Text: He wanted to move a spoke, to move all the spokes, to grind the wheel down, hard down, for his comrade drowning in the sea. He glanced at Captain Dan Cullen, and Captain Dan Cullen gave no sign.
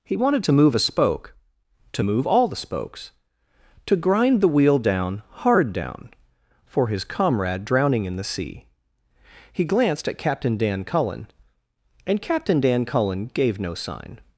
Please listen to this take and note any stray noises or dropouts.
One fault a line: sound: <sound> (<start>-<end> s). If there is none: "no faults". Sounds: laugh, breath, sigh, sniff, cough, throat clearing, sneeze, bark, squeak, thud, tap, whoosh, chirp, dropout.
no faults